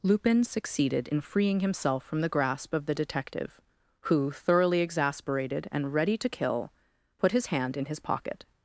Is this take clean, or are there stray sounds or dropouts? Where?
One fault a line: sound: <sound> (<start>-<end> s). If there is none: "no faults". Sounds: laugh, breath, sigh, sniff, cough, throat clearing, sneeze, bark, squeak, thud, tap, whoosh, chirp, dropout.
no faults